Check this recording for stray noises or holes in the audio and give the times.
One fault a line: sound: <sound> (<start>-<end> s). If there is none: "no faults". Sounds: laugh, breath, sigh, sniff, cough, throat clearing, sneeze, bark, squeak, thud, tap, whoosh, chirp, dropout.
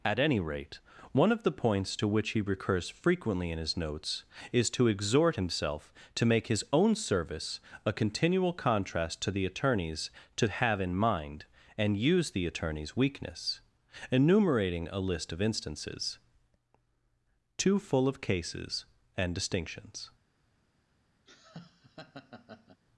sound: laugh (21.3-22.8 s)